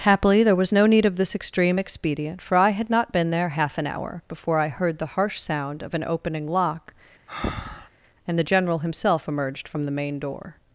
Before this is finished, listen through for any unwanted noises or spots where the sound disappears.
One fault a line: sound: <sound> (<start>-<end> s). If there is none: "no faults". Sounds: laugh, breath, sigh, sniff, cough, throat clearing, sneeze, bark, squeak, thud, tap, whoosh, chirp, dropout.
sound: breath (7.3-7.9 s)